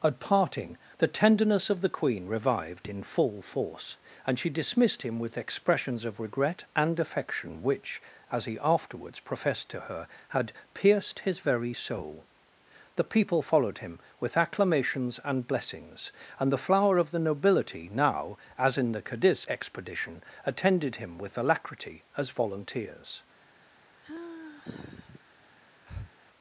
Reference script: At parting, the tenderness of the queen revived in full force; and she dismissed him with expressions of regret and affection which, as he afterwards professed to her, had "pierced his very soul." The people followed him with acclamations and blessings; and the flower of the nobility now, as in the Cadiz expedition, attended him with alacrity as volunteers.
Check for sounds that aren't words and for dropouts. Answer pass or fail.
fail